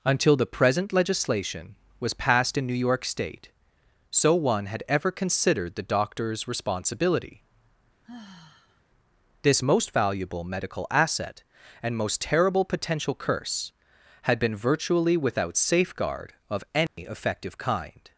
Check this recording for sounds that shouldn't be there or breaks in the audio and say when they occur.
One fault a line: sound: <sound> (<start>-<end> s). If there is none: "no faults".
sound: sigh (8.0-8.8 s)
sound: dropout (16.9-17.0 s)